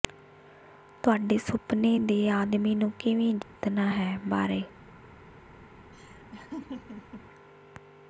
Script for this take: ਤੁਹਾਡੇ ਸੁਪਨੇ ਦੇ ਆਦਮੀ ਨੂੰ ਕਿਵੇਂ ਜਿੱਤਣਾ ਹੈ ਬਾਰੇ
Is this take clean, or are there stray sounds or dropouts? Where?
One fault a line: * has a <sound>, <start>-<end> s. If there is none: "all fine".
* has a dropout, 3.4-3.6 s
* has a laugh, 5.9-7.3 s